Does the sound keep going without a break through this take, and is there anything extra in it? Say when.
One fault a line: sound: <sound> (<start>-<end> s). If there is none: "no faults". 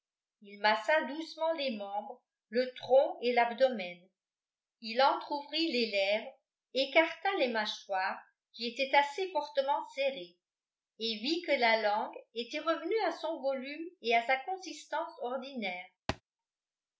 sound: thud (16.1-16.2 s)